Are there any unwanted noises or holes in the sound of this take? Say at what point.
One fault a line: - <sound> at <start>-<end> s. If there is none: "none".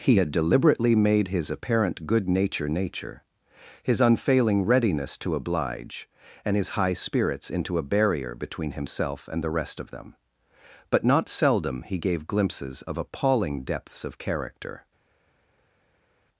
none